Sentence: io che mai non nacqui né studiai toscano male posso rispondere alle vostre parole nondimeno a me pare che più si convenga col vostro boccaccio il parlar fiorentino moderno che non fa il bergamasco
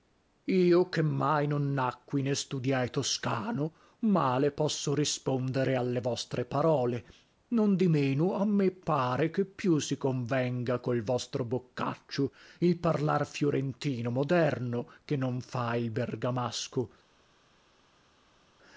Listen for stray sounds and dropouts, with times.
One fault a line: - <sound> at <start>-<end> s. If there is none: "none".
none